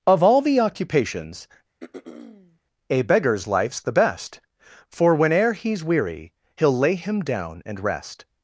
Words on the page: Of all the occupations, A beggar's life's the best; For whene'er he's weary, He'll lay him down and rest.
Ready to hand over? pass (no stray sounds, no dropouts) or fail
fail